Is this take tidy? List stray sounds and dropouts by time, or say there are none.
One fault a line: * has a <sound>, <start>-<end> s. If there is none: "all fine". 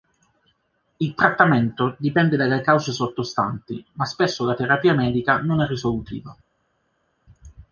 all fine